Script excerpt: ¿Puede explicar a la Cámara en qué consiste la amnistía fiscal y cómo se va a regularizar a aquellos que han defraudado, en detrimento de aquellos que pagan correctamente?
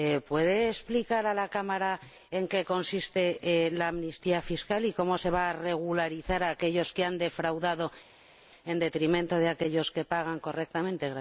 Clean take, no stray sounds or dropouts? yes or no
yes